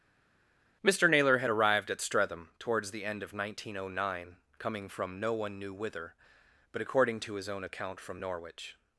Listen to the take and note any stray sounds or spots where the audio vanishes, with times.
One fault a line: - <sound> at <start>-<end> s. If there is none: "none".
none